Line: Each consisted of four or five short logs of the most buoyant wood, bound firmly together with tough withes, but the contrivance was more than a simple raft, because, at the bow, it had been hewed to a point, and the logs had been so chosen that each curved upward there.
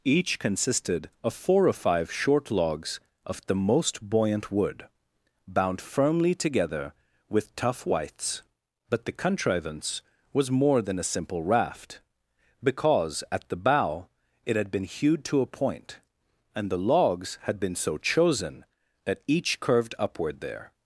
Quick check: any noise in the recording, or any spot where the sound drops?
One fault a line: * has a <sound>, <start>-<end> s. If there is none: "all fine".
all fine